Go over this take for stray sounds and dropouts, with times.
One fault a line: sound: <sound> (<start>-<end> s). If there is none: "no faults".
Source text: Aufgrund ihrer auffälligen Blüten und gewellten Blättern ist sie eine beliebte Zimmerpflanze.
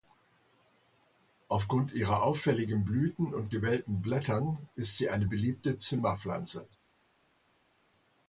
no faults